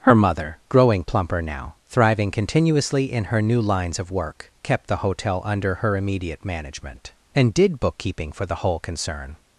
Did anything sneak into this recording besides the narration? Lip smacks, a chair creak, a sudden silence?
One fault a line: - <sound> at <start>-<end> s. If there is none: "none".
none